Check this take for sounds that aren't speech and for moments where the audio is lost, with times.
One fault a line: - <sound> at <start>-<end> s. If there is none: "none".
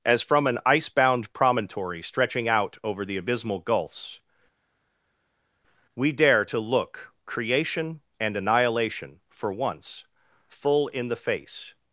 none